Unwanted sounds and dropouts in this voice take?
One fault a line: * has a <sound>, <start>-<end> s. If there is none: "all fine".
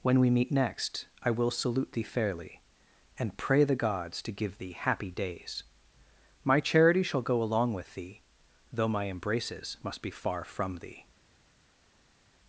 all fine